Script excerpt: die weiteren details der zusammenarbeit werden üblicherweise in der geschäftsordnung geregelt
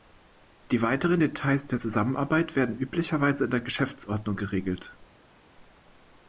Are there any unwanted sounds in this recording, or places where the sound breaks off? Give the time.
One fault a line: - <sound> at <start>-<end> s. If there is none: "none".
none